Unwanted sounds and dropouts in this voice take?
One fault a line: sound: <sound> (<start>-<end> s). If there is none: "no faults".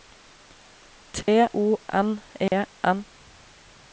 sound: dropout (1.2-1.3 s)
sound: dropout (2.5-2.5 s)